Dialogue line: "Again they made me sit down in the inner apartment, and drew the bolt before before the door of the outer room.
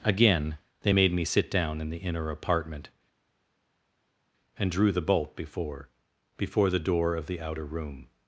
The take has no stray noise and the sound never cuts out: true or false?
true